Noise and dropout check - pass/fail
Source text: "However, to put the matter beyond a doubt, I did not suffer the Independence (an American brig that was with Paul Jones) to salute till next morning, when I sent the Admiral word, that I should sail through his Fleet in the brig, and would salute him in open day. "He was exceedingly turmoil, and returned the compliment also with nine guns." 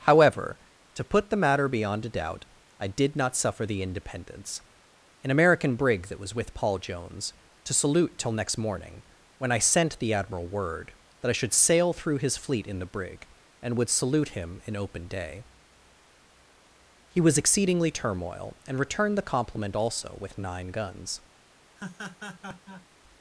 fail